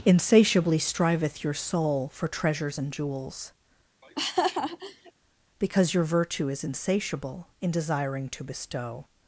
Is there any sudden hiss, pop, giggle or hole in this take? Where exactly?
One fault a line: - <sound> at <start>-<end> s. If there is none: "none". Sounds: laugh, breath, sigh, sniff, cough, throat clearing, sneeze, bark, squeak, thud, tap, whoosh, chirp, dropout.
- laugh at 4.0-5.1 s